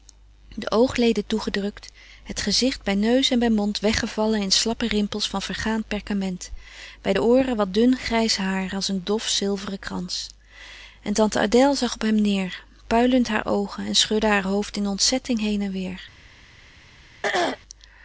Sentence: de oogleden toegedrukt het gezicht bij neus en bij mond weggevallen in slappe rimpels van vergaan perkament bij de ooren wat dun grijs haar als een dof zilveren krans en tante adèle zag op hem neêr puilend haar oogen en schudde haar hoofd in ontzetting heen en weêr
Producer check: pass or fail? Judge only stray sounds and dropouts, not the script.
fail